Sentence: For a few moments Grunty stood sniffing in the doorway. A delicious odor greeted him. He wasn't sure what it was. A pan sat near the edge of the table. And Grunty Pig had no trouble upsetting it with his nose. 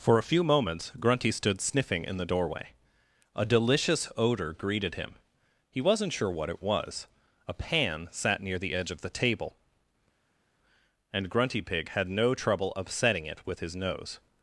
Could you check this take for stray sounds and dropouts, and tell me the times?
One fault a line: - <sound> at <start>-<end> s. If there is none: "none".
none